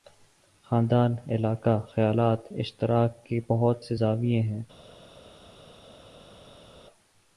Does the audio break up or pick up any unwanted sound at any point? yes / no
no